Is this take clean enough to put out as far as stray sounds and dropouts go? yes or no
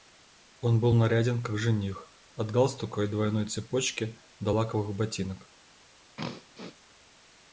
no